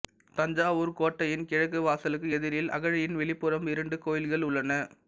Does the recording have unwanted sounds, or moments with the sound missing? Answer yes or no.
no